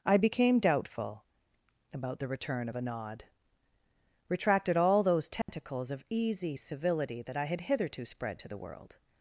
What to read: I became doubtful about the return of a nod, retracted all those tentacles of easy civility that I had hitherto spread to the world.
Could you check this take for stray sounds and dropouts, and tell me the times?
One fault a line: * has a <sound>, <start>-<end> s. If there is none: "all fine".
* has a dropout, 5.4-5.5 s